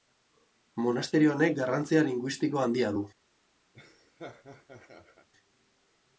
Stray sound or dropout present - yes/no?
yes